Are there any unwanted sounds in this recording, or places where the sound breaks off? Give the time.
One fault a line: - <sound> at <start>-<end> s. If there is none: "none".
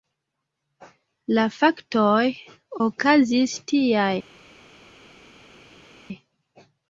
none